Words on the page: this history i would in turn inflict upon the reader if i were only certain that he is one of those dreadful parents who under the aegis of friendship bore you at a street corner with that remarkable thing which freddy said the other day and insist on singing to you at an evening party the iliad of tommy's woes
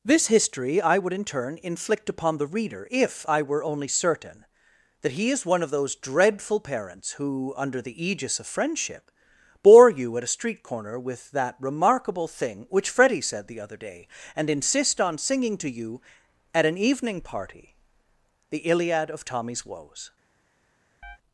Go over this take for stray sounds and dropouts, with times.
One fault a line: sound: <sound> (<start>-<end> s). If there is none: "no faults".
sound: chirp (21.0-21.2 s)